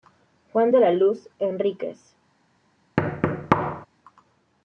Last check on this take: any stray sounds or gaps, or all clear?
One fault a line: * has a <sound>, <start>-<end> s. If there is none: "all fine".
* has a thud, 3.0-3.9 s